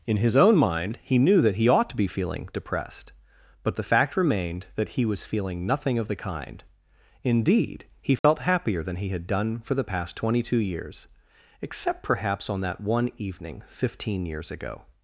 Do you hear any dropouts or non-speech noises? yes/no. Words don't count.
yes